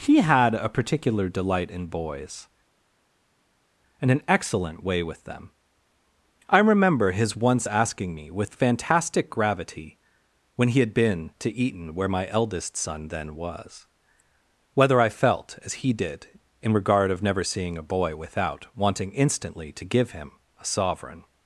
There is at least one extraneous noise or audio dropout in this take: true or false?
false